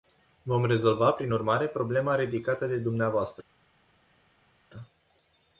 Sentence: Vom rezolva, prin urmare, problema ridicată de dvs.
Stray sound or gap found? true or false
false